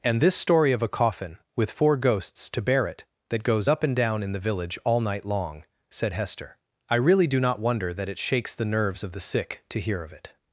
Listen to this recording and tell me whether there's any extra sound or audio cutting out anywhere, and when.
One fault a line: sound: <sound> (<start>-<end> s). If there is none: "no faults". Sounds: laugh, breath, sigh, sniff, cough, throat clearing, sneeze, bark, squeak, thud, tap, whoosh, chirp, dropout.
no faults